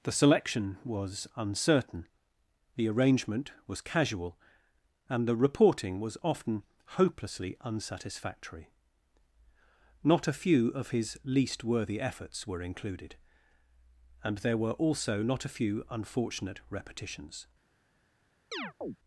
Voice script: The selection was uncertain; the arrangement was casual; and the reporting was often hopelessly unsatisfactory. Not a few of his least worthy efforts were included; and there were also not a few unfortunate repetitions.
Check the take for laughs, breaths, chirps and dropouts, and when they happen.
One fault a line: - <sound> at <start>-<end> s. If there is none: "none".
- chirp at 18.5-19.0 s